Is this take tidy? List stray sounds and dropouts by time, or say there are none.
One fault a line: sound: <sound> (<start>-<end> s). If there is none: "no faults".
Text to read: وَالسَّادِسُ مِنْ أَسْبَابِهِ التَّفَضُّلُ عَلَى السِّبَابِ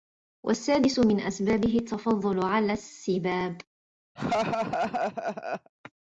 sound: laugh (4.2-5.7 s)